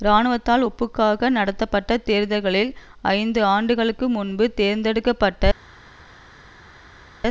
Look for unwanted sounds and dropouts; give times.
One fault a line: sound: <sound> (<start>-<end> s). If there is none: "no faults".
no faults